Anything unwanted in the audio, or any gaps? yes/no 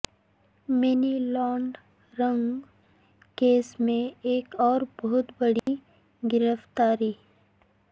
yes